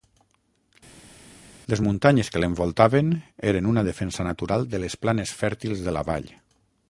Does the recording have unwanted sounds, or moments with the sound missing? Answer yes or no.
no